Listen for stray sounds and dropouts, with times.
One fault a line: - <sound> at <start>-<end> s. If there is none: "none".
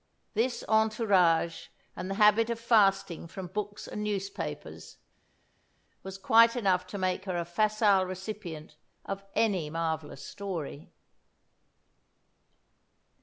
none